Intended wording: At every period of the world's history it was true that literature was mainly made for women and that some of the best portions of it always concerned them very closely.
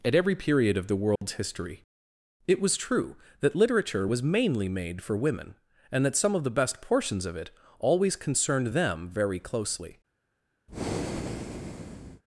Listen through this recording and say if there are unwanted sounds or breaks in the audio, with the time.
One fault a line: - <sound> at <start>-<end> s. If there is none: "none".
- dropout at 1.2-1.2 s
- breath at 10.7-12.2 s